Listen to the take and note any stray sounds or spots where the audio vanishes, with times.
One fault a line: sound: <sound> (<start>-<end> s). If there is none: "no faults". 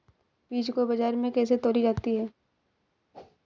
sound: whoosh (3.1-3.4 s)